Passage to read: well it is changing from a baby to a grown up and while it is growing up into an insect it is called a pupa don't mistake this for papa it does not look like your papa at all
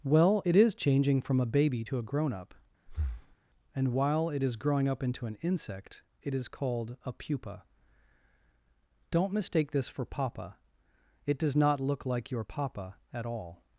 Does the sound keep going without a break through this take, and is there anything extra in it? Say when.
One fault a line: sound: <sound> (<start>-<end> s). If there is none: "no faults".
sound: breath (2.9-3.4 s)